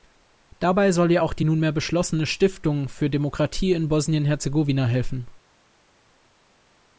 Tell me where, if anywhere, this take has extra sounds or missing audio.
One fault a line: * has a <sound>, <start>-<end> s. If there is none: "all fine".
all fine